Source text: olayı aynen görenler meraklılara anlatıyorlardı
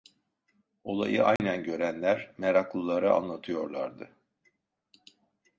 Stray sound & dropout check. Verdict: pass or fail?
fail